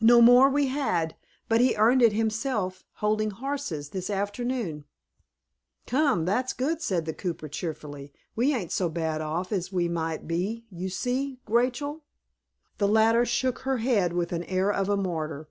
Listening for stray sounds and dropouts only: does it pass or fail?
pass